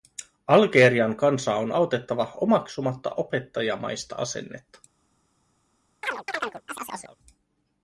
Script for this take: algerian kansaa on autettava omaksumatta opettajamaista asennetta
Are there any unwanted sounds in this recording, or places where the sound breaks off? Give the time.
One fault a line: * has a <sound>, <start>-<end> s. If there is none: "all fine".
* has a chirp, 6.0-7.2 s